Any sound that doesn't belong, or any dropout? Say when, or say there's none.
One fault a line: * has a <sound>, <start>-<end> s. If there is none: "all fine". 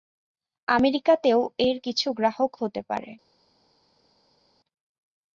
all fine